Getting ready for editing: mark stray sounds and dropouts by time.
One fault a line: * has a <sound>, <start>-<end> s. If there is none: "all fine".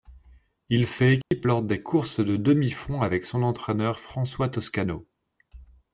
* has a dropout, 1.2-1.3 s